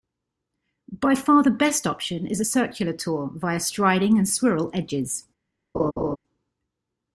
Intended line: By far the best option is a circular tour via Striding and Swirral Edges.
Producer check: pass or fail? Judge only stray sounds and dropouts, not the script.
fail